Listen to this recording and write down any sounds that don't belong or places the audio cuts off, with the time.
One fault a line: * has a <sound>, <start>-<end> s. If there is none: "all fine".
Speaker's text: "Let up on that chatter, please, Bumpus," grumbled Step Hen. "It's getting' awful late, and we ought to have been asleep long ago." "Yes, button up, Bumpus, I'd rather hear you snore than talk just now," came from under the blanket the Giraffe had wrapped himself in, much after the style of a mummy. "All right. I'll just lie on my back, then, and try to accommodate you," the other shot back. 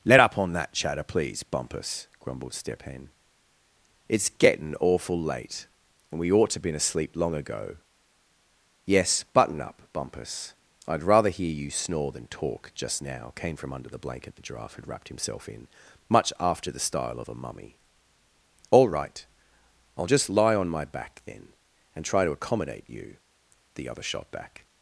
all fine